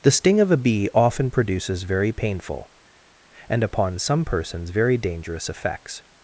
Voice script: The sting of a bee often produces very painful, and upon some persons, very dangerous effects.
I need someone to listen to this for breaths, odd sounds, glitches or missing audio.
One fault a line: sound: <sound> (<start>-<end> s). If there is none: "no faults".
no faults